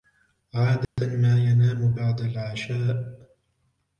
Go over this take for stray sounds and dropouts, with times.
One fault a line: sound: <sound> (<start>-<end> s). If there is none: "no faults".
sound: dropout (0.8-1.0 s)